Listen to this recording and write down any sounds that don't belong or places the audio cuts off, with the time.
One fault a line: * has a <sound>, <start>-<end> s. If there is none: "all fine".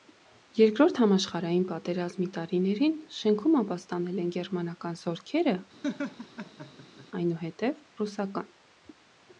* has a laugh, 5.8-7.1 s